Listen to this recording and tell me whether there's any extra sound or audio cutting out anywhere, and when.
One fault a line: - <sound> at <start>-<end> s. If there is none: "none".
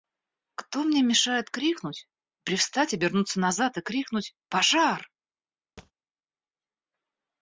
- thud at 5.8-5.9 s